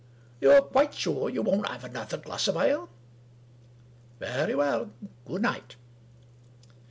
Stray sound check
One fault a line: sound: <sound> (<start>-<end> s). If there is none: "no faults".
no faults